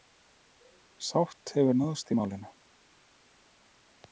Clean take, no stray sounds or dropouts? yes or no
yes